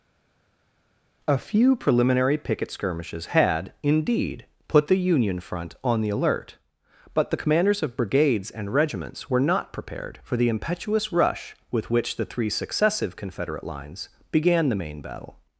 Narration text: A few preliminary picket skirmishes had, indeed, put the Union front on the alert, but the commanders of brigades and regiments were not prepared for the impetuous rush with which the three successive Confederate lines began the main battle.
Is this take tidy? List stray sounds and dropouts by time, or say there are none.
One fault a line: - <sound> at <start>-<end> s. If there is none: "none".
none